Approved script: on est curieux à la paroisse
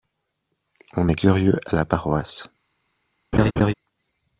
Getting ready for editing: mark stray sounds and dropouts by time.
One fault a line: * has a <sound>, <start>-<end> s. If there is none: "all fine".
* has a laugh, 3.3-3.7 s